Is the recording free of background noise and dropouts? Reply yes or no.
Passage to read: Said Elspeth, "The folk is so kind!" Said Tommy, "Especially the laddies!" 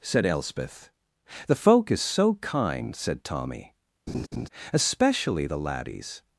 no